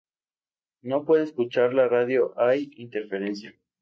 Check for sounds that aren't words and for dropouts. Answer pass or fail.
pass